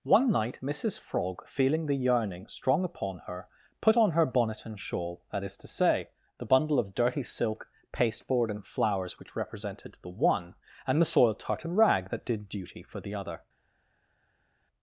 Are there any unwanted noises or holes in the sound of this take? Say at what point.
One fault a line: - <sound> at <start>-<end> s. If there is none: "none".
none